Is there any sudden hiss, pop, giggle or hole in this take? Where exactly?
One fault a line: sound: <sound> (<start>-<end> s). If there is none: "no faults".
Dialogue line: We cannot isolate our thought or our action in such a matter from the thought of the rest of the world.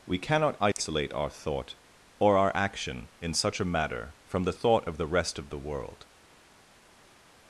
no faults